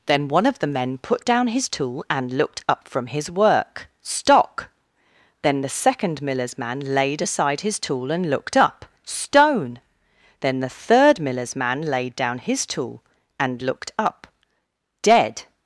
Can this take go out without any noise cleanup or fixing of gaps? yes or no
yes